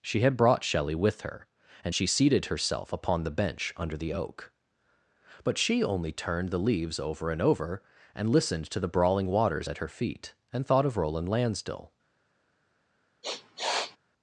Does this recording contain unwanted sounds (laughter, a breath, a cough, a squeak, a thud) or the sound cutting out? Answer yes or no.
yes